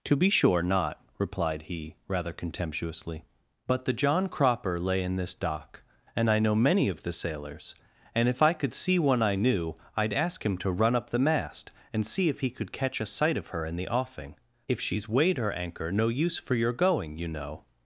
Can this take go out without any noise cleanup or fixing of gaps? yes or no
yes